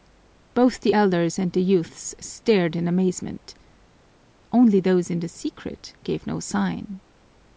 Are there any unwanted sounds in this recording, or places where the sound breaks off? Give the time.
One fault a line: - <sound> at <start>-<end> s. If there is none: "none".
none